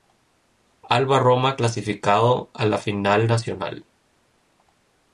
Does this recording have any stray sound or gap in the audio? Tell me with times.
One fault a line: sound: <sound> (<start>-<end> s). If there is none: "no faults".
no faults